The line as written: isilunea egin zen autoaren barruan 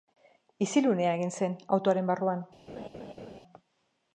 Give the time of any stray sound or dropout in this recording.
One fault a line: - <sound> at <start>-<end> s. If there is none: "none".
- laugh at 2.7-3.4 s